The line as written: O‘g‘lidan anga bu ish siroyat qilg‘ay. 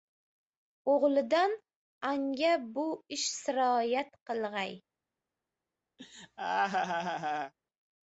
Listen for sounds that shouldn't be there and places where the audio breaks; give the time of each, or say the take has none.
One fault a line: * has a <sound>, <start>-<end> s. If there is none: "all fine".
* has a laugh, 6.0-7.5 s